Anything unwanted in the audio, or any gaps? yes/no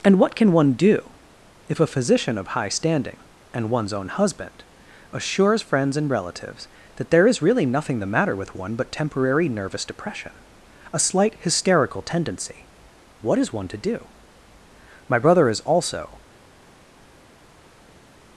no